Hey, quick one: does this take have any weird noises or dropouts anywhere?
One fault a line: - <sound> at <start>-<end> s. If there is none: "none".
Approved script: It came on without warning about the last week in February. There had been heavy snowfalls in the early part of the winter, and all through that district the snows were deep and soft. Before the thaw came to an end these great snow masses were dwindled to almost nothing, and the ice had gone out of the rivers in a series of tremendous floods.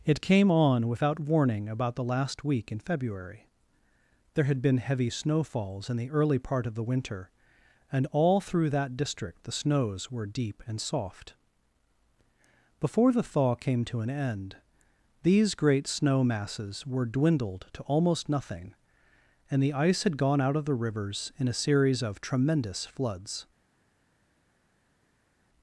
none